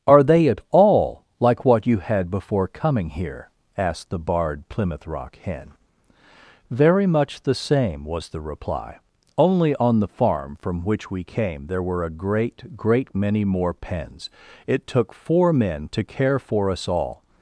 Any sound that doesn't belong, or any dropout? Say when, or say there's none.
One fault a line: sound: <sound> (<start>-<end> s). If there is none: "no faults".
no faults